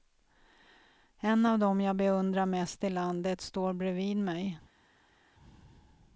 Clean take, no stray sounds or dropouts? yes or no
yes